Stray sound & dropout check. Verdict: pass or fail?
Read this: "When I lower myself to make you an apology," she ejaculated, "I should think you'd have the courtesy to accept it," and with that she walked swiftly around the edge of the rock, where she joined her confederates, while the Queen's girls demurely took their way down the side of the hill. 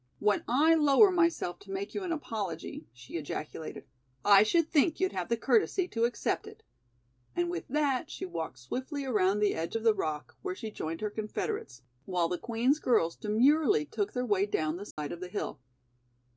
fail